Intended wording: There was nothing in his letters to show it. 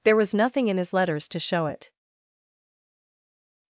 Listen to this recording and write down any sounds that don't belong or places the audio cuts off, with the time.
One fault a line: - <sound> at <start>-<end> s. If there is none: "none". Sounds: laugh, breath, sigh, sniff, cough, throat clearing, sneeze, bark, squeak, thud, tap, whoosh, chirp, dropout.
none